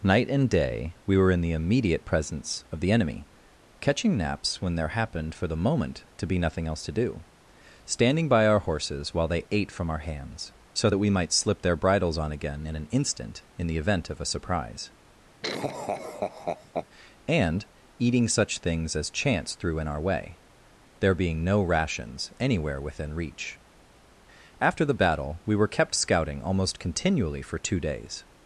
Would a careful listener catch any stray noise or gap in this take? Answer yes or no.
yes